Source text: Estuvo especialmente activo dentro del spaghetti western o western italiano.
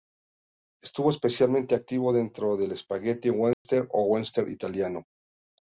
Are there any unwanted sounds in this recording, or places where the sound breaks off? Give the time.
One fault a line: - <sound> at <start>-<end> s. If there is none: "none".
- dropout at 3.5-3.7 s